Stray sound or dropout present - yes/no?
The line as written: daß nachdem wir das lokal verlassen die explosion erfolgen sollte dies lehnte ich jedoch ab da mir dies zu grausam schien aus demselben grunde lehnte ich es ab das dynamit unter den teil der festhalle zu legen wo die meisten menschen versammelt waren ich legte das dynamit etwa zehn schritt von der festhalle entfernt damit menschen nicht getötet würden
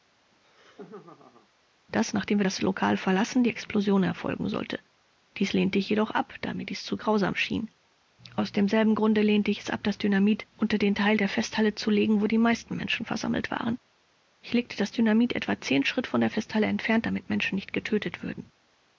yes